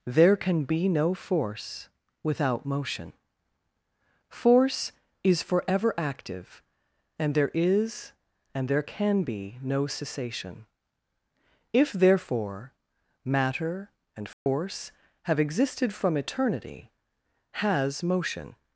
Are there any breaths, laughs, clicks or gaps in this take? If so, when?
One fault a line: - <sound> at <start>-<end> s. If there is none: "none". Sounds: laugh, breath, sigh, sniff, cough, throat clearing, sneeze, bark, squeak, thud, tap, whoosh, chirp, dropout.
- dropout at 14.3-14.5 s